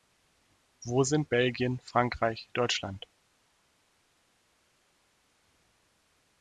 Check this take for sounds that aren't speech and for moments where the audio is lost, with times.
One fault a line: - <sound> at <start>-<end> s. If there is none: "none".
none